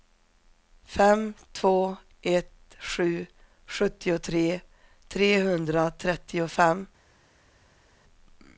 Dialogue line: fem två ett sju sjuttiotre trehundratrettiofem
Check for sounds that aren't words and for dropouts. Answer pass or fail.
pass